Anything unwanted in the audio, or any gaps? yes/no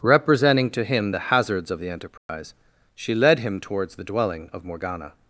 yes